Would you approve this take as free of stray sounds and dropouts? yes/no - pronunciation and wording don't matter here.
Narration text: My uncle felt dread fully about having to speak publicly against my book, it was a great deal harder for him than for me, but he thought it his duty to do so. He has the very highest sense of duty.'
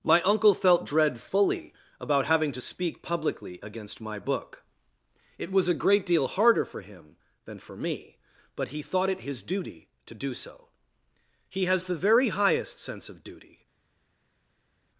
yes